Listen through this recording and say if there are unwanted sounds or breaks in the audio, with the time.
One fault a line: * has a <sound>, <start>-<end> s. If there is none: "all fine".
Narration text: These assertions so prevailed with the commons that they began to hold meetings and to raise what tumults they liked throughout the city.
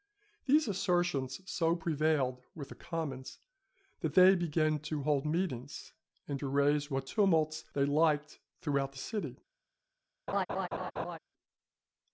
* has a laugh, 10.3-11.2 s